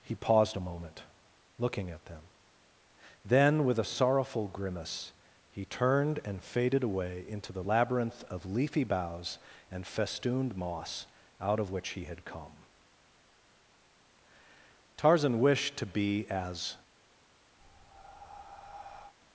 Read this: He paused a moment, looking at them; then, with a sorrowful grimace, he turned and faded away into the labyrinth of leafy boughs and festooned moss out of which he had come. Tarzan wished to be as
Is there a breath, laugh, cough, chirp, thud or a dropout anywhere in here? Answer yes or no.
yes